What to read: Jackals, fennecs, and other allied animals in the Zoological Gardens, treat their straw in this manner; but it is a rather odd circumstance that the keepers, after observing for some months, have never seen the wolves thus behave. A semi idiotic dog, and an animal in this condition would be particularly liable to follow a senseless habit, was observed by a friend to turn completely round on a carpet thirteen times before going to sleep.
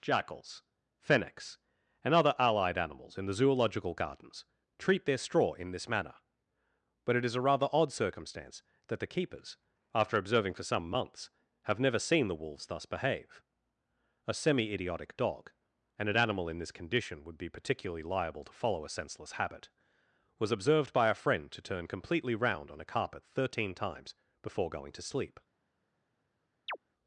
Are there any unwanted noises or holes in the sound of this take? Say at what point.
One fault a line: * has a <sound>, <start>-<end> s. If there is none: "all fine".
* has a chirp, 26.7-26.8 s